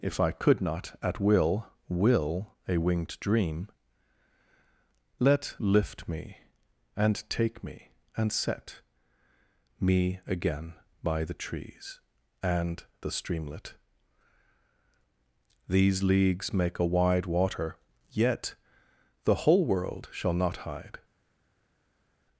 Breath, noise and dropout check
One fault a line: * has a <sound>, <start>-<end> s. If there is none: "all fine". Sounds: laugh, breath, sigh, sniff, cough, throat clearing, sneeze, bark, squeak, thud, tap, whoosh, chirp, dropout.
all fine